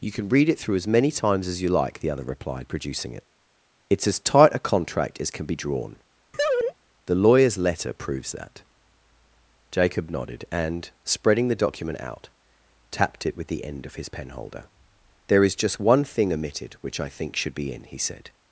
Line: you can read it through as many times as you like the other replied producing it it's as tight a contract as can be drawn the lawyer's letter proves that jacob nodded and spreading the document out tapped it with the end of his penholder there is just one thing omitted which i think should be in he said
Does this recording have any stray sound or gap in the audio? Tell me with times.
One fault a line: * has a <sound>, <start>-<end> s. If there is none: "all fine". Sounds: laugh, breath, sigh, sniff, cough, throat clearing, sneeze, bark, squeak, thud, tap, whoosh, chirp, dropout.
* has a laugh, 6.3-6.7 s